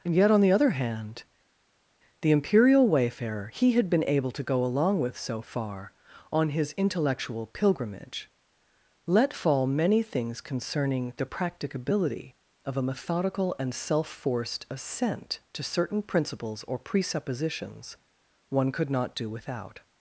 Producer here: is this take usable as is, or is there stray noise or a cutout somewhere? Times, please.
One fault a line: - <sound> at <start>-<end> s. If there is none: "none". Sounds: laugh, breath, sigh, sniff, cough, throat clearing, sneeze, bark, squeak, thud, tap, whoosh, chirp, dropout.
none